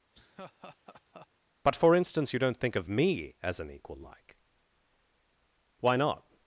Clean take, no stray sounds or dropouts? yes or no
no